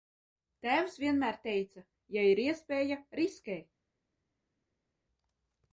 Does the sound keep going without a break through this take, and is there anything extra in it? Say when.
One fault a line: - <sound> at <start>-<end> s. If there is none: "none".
none